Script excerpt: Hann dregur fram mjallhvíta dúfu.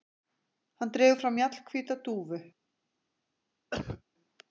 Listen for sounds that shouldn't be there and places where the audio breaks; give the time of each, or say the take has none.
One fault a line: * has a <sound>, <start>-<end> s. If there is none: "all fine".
* has a cough, 3.7-4.0 s